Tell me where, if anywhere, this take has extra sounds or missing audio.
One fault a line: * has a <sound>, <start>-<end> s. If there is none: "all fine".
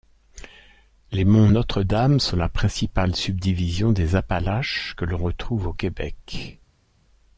all fine